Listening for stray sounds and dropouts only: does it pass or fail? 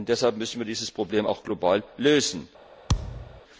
fail